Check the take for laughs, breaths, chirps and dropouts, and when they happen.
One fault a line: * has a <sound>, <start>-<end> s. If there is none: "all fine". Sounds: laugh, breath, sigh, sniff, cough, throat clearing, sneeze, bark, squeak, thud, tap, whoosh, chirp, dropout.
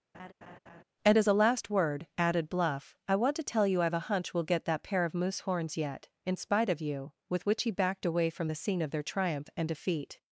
* has a laugh, 0.1-0.8 s